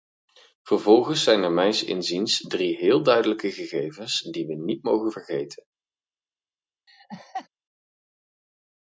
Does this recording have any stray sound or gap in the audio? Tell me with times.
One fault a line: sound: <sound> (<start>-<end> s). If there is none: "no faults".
sound: laugh (6.9-7.5 s)